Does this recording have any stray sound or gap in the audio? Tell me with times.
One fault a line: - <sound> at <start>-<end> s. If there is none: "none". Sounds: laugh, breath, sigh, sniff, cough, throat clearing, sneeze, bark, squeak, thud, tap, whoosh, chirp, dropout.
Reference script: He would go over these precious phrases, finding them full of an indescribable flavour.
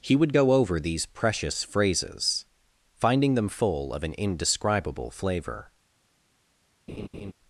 - laugh at 6.9-7.3 s